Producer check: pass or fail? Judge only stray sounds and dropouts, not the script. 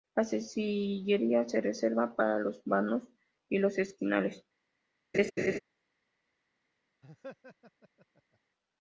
fail